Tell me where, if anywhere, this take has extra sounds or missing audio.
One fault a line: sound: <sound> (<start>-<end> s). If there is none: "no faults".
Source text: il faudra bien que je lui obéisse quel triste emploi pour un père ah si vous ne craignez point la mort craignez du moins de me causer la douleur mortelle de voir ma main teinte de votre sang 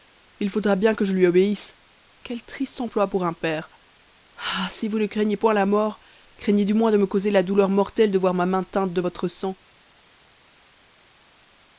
no faults